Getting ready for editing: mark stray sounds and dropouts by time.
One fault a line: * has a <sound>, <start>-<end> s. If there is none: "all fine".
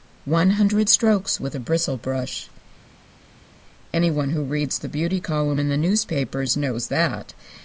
all fine